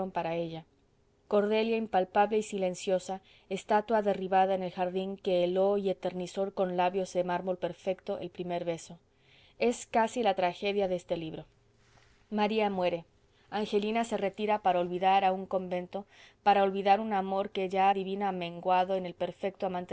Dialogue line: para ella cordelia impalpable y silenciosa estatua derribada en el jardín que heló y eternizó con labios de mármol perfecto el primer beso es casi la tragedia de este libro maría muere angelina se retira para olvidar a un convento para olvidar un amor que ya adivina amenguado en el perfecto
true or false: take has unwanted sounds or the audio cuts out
false